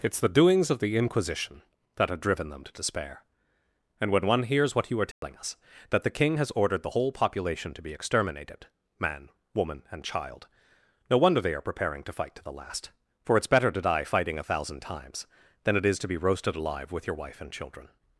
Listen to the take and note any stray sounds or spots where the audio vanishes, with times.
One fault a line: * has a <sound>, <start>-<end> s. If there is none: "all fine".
* has a dropout, 5.1-5.2 s